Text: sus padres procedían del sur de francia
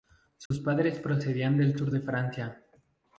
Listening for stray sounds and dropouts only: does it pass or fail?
fail